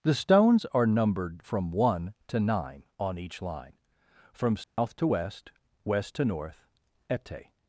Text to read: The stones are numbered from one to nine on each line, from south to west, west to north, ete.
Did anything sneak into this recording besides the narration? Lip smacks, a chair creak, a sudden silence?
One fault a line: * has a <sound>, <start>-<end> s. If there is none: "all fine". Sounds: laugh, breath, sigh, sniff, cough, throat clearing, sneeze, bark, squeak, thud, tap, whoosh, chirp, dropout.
* has a dropout, 4.6-4.8 s